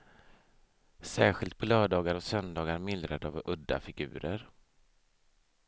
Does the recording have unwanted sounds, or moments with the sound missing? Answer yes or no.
no